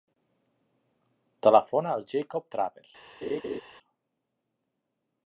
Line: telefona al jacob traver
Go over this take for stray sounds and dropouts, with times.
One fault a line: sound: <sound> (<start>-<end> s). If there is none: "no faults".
sound: laugh (3.2-3.6 s)